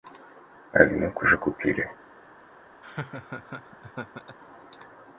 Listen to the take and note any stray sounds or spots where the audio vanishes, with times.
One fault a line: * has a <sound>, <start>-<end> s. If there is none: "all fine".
* has a laugh, 2.8-4.4 s